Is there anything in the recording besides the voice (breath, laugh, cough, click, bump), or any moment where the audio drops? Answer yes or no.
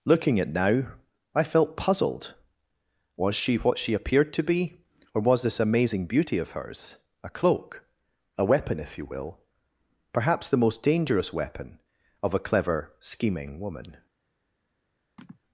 yes